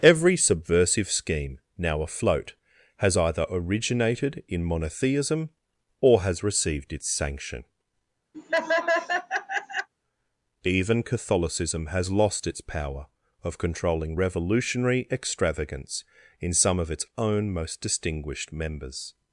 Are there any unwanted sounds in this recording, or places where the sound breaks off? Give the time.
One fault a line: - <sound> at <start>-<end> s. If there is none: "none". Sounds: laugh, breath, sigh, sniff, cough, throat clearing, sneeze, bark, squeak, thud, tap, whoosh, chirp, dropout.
- laugh at 8.3-9.9 s